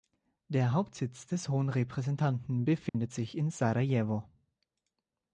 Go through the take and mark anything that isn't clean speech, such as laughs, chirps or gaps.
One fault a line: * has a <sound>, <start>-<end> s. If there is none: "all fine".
* has a dropout, 2.9-2.9 s